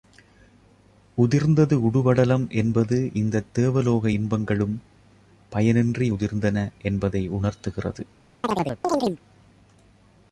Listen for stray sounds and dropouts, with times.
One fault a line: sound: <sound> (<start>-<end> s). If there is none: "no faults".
sound: chirp (8.4-9.2 s)